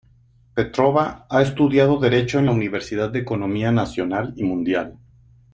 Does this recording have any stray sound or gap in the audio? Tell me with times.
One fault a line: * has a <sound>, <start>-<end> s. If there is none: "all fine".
all fine